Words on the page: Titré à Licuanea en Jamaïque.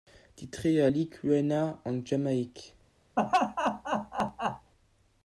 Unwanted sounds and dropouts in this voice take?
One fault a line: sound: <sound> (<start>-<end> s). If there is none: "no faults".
sound: laugh (3.2-4.7 s)